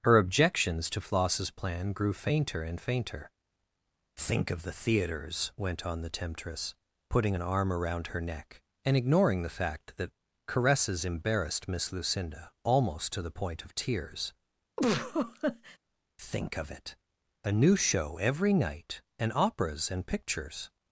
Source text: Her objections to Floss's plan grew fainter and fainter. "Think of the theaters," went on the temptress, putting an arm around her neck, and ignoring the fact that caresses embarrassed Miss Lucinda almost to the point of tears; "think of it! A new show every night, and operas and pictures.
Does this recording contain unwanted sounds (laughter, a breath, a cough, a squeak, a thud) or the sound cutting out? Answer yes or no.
yes